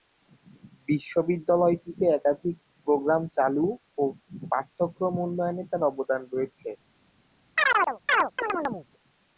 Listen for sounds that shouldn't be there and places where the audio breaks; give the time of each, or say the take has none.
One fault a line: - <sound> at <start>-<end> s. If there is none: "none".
- chirp at 7.6-8.9 s